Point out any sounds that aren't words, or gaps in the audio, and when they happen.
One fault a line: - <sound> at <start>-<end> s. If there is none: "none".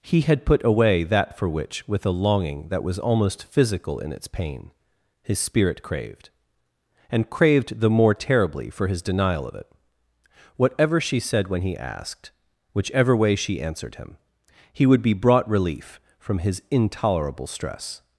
none